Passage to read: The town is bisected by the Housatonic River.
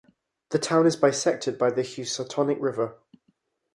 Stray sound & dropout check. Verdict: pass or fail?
pass